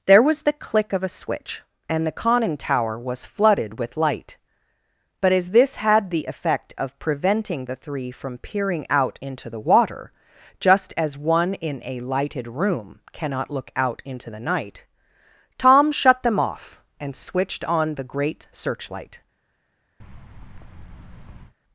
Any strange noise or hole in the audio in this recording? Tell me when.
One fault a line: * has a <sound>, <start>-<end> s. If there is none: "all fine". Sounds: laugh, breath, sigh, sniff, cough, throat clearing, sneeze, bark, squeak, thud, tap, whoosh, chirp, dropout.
* has a thud, 20.0-21.5 s